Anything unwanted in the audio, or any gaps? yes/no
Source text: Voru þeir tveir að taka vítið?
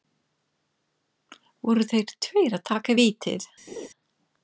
yes